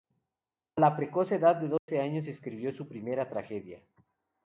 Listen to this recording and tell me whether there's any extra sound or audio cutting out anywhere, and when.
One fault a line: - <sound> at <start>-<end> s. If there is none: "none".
- dropout at 1.8-1.9 s